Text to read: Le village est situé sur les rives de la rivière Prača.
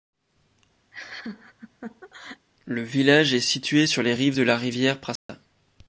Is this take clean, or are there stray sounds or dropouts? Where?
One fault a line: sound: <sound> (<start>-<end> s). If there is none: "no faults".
sound: laugh (0.9-2.5 s)
sound: dropout (5.2-5.3 s)